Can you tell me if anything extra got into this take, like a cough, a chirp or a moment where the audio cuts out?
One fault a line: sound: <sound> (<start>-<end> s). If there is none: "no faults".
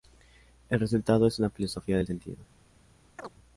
sound: chirp (3.2-3.3 s)